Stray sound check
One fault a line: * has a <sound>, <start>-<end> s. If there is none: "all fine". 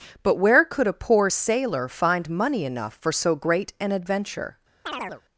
* has a chirp, 4.9-5.2 s